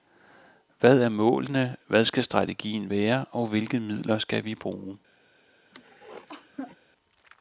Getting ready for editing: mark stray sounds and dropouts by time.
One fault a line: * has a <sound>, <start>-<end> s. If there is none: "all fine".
* has a cough, 5.7-6.8 s